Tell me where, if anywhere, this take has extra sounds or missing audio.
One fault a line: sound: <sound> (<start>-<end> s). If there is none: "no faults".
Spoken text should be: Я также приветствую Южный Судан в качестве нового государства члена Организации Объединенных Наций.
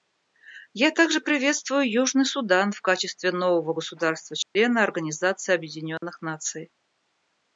sound: dropout (4.4-4.6 s)
sound: dropout (6.0-6.0 s)